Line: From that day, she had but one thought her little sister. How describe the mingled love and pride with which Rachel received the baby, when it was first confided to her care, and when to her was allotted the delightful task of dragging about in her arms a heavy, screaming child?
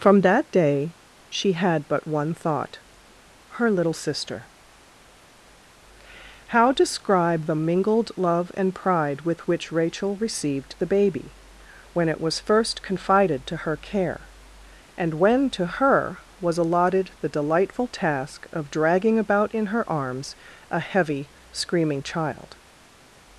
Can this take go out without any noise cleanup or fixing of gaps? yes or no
yes